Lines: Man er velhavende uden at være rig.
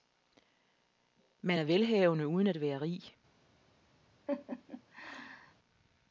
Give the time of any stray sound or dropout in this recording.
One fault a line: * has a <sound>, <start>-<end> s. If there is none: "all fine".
* has a laugh, 4.3-5.5 s